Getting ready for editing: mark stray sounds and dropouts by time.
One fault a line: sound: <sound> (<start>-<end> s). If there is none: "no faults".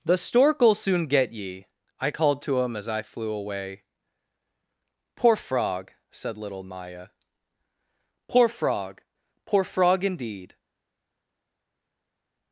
no faults